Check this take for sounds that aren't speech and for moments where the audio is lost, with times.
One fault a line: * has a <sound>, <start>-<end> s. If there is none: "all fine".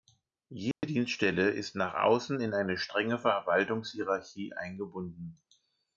* has a dropout, 0.7-0.8 s